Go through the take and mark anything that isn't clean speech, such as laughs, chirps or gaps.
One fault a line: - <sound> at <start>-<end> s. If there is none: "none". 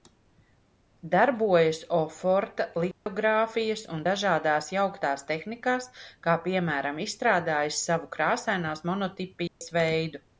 - dropout at 2.9-3.1 s
- dropout at 9.5-9.6 s